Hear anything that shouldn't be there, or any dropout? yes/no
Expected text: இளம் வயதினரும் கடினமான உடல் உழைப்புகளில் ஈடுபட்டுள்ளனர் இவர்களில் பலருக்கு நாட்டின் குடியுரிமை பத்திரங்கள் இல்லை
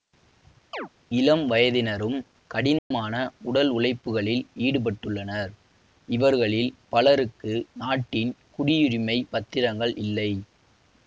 yes